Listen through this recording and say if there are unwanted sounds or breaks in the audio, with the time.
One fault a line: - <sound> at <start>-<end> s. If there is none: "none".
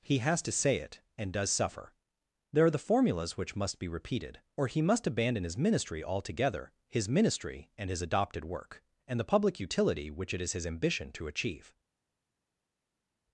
none